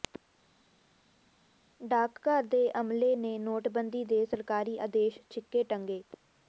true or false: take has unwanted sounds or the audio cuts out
false